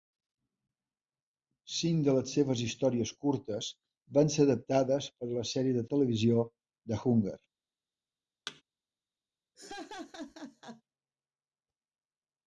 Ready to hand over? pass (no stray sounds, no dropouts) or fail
fail